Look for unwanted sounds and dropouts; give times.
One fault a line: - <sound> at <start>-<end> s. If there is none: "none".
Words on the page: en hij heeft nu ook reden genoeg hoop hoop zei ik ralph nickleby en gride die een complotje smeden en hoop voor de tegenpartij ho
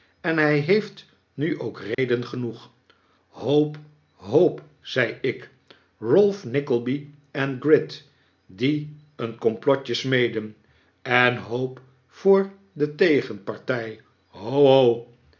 - dropout at 1.9-2.0 s